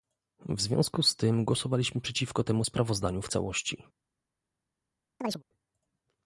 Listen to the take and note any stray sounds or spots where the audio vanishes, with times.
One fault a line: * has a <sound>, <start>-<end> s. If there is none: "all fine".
* has a chirp, 5.2-5.4 s